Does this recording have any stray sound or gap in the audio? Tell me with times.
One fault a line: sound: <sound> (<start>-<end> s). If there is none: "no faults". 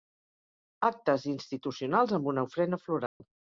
sound: dropout (3.1-3.2 s)